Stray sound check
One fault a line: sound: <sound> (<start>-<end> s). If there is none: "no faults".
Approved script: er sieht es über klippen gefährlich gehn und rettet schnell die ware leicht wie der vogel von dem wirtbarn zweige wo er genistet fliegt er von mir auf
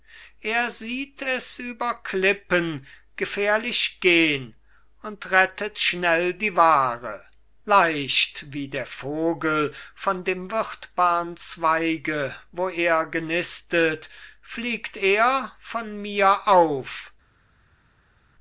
no faults